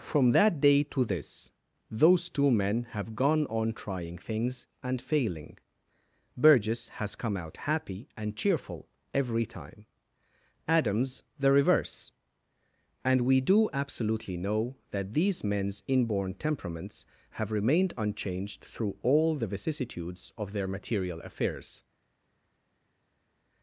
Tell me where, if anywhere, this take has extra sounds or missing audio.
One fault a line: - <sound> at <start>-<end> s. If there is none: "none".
none